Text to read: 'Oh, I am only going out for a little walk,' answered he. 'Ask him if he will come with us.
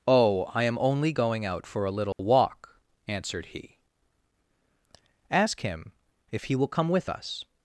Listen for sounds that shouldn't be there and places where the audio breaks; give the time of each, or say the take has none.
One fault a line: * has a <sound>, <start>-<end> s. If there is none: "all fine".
* has a dropout, 2.1-2.2 s